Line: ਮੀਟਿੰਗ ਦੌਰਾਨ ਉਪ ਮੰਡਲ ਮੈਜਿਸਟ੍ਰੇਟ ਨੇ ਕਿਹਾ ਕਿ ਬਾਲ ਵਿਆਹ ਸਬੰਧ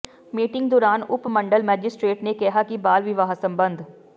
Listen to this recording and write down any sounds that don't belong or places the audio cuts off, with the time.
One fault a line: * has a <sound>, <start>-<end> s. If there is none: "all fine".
all fine